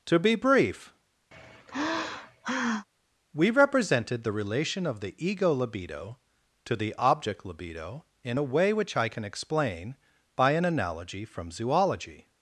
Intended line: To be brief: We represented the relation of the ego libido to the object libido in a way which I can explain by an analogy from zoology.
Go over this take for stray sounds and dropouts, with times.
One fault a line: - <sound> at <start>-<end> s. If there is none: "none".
- sigh at 1.3-2.9 s